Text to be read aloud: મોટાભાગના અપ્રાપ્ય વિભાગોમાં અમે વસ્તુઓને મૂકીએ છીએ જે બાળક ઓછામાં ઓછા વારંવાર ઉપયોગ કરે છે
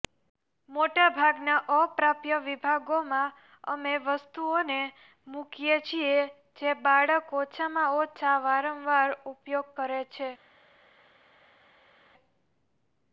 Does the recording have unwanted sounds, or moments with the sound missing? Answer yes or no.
no